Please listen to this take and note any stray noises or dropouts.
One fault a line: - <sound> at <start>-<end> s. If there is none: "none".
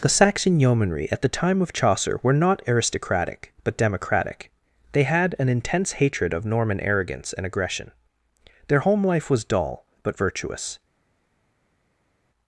none